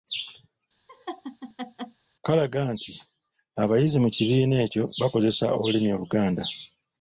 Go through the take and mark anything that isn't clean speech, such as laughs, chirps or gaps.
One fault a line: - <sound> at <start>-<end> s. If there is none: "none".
- laugh at 0.9-2.0 s